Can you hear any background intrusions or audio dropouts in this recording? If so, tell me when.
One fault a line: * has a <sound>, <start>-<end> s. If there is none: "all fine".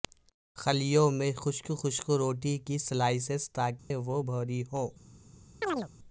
* has a dropout, 3.8-3.9 s
* has a chirp, 5.6-5.9 s